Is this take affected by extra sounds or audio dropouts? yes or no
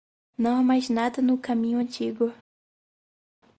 no